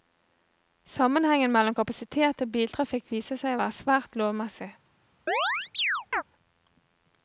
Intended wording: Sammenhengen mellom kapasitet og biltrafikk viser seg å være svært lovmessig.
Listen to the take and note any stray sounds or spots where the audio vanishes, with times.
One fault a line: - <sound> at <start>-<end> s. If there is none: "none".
- chirp at 5.3-6.2 s